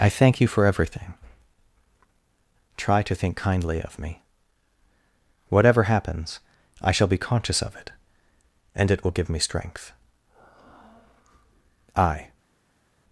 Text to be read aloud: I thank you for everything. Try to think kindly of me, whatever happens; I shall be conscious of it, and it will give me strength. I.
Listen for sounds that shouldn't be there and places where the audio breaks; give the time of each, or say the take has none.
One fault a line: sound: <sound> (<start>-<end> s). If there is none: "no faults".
no faults